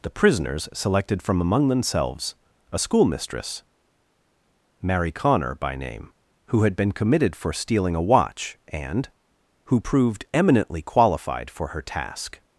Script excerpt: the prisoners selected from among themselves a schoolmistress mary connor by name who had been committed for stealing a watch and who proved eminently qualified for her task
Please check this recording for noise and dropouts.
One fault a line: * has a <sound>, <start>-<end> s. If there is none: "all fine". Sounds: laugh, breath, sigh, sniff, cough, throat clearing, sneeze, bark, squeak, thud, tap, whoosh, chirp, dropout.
all fine